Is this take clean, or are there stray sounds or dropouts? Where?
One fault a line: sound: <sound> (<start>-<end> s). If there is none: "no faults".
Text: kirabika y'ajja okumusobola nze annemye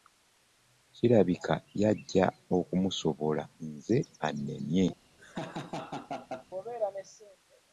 sound: laugh (5.2-6.5 s)